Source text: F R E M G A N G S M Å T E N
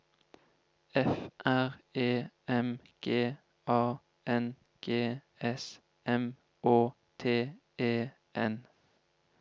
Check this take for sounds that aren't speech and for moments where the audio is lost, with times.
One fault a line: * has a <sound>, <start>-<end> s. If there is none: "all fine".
all fine